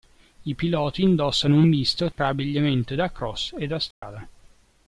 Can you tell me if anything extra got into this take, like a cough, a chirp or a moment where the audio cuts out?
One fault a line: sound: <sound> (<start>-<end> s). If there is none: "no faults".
sound: dropout (2.1-2.2 s)
sound: dropout (3.9-4.0 s)